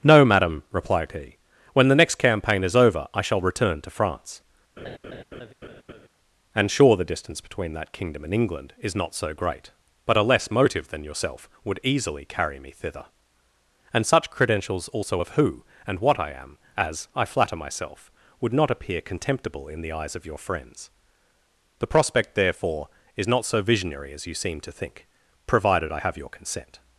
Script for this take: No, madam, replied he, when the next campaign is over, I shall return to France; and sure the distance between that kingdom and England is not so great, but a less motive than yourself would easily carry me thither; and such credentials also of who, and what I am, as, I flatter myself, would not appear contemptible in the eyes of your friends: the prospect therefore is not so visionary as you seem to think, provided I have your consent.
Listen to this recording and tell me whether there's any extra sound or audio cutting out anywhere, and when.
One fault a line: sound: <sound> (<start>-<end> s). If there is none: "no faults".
sound: laugh (4.8-6.1 s)